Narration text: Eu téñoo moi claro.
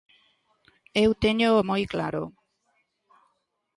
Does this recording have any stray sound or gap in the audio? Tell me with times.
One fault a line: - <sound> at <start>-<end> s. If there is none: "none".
none